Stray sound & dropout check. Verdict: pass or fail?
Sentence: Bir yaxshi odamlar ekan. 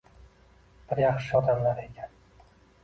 pass